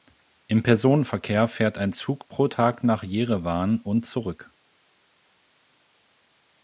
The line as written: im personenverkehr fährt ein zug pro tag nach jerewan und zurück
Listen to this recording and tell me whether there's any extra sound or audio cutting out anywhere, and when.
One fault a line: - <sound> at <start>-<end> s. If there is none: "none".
none